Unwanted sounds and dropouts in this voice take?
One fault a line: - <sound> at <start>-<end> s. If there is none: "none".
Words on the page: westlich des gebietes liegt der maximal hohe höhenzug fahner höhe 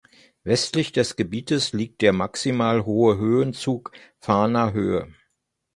none